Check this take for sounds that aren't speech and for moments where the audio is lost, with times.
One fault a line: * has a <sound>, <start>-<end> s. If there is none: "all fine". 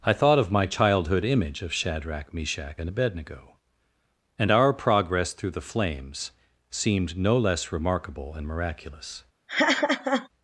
* has a laugh, 9.5-10.3 s